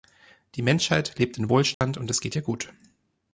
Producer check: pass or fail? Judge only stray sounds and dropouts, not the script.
fail